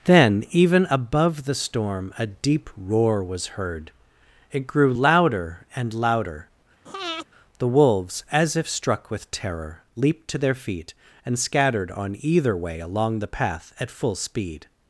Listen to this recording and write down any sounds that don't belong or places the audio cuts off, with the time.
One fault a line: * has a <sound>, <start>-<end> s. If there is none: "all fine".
* has a breath, 6.9-7.3 s